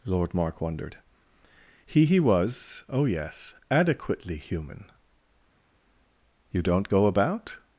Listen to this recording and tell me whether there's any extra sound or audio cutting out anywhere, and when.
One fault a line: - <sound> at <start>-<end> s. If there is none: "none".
none